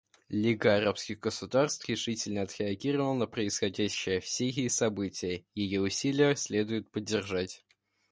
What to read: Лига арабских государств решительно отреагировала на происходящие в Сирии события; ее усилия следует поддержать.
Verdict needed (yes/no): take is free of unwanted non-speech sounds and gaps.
yes